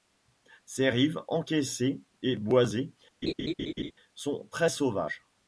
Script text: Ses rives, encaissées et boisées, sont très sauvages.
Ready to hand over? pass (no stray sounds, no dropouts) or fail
fail